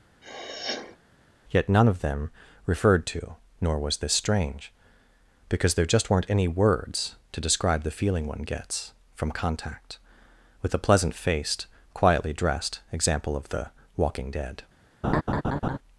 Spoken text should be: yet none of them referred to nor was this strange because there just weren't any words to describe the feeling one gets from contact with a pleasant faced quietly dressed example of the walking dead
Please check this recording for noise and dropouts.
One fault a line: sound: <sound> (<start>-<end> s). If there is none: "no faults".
sound: sniff (0.2-1.0 s)
sound: laugh (15.0-15.8 s)